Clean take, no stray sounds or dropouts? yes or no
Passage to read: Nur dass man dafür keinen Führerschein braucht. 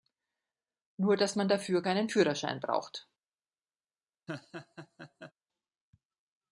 no